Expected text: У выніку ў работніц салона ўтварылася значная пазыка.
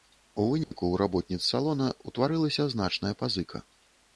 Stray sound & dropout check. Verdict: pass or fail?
fail